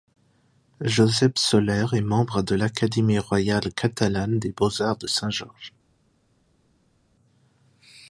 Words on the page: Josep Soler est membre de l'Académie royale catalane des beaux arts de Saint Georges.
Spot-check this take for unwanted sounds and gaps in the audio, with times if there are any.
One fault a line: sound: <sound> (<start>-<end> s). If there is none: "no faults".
no faults